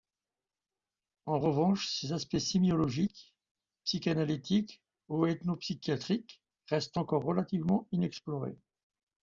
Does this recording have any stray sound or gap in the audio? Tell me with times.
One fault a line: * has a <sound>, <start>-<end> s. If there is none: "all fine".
all fine